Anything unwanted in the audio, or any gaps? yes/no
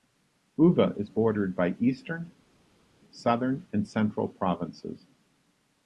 no